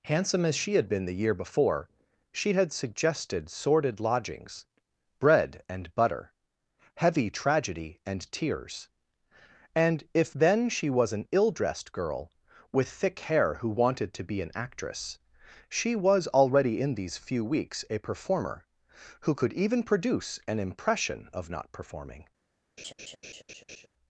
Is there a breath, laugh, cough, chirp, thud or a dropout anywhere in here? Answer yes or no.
yes